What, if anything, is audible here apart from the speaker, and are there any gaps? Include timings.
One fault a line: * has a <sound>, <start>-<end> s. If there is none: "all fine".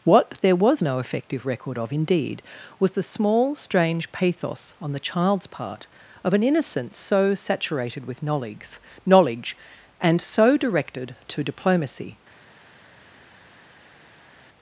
all fine